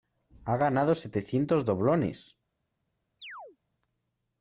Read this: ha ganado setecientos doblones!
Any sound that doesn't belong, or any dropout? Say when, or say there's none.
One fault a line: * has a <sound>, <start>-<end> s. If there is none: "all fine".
* has a chirp, 3.2-3.6 s